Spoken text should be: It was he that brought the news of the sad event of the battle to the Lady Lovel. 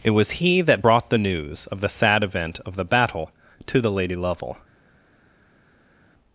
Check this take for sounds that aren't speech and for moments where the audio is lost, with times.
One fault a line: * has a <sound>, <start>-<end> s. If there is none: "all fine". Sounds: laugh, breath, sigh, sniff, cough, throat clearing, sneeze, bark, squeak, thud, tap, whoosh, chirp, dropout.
all fine